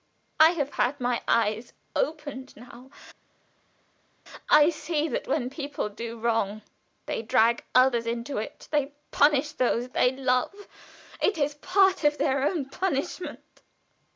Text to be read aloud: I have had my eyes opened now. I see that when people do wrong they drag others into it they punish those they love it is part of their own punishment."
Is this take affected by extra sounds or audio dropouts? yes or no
no